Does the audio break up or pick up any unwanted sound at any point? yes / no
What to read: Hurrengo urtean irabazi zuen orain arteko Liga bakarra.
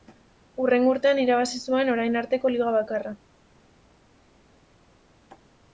no